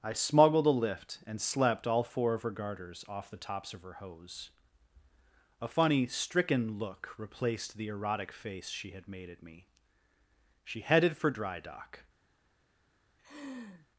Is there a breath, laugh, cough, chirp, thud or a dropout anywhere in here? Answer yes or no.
yes